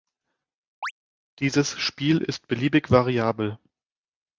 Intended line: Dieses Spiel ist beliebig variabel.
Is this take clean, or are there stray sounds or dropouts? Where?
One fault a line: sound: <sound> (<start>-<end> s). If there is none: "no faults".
sound: chirp (0.8-0.9 s)